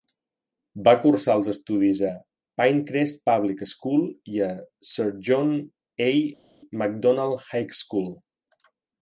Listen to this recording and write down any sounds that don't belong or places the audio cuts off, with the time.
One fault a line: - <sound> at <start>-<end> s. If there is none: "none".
none